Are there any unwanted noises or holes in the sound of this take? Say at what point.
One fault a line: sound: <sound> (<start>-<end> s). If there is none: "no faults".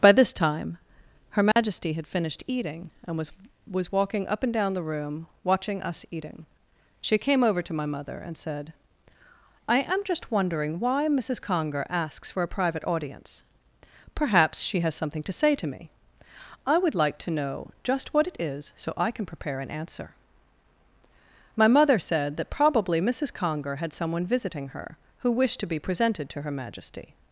sound: dropout (1.5-1.6 s)